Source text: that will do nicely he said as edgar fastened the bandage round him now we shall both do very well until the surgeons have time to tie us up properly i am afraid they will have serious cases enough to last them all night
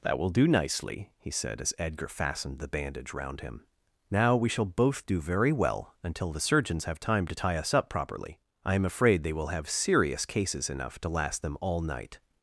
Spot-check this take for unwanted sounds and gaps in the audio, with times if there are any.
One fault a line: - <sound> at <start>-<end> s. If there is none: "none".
none